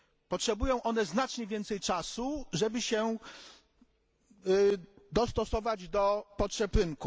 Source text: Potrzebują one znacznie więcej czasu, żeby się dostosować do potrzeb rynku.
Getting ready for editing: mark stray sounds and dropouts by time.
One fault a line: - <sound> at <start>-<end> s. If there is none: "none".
none